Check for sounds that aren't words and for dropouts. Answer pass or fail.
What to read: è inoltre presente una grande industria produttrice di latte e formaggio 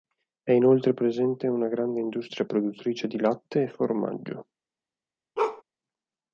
fail